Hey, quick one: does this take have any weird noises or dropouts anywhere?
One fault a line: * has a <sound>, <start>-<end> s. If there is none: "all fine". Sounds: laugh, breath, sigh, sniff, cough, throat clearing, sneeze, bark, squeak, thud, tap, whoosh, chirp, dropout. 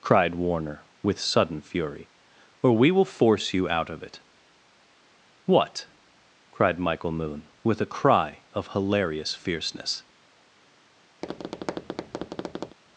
* has a tap, 11.2-12.8 s